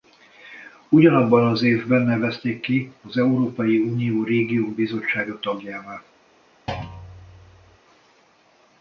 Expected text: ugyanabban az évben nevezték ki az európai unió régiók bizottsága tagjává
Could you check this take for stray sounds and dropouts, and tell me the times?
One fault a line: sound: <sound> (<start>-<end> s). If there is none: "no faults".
sound: thud (6.7-7.8 s)